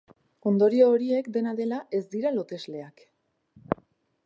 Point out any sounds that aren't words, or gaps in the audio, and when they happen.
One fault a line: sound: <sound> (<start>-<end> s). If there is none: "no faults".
no faults